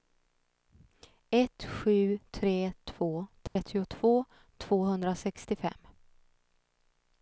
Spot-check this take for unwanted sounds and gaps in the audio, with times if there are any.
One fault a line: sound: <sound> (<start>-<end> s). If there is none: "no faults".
sound: dropout (3.5-3.6 s)